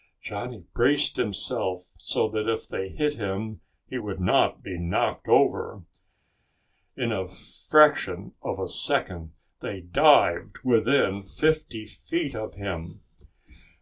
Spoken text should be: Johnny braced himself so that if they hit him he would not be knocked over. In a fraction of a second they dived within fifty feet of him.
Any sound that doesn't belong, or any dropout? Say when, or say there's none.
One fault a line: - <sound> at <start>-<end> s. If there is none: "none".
none